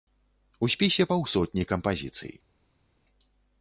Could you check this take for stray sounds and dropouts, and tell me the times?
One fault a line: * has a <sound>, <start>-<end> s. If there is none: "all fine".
all fine